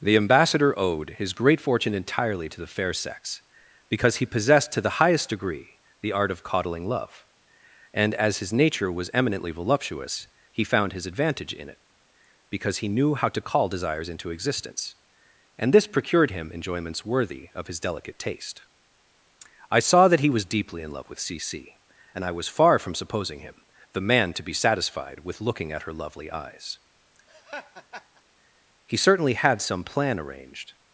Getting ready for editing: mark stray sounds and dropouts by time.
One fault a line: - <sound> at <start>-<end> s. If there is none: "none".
- laugh at 27.3-28.2 s